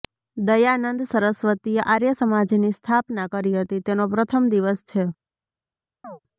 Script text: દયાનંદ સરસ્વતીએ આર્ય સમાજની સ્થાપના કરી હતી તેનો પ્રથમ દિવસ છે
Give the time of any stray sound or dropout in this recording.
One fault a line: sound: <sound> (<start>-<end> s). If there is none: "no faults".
sound: chirp (6.0-6.2 s)